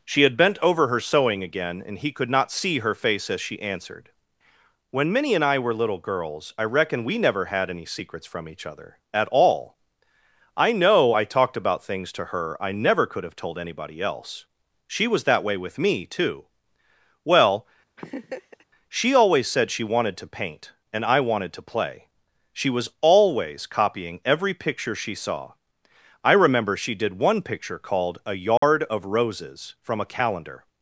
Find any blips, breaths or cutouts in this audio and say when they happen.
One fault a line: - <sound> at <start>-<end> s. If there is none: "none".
- laugh at 18.0-18.6 s
- dropout at 28.6-28.6 s